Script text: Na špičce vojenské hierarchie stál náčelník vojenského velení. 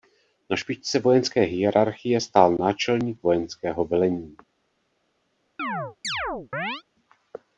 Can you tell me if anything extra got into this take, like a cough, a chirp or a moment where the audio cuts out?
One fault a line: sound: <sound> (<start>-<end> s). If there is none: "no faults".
sound: chirp (5.6-6.8 s)